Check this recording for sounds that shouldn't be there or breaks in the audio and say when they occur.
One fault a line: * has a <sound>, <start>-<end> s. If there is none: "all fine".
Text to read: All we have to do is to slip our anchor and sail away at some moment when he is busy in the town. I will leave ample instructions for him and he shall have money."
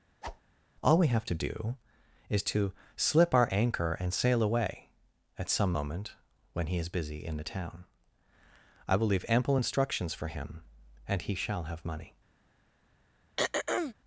* has a whoosh, 0.2-0.4 s
* has a throat clearing, 13.4-13.9 s